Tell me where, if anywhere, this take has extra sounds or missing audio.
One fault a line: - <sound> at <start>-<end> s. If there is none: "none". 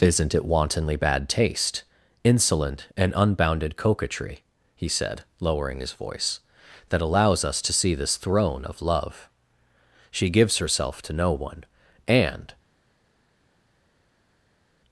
none